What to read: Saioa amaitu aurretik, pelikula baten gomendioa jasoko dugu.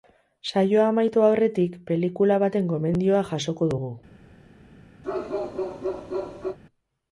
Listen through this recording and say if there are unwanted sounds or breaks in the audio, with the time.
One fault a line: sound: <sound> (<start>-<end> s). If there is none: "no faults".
sound: bark (5.0-6.6 s)